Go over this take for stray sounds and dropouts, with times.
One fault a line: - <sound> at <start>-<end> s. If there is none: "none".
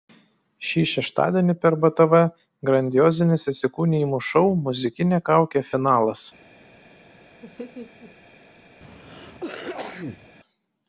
- laugh at 7.4-8.1 s
- cough at 8.8-10.3 s